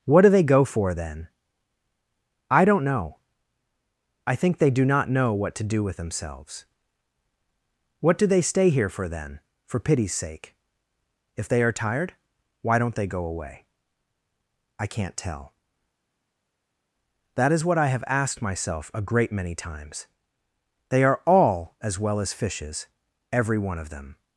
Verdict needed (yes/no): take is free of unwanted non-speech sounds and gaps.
yes